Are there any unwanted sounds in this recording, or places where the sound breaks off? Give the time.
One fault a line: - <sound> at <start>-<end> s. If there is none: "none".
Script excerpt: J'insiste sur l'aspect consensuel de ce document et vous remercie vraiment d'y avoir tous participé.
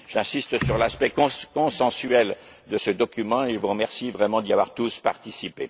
none